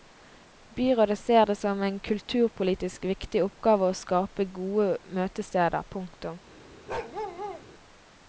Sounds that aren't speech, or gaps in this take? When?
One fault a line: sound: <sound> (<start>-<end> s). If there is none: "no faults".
sound: bark (6.9-7.6 s)